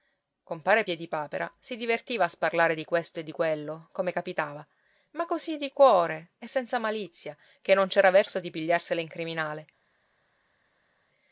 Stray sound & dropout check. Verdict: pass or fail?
pass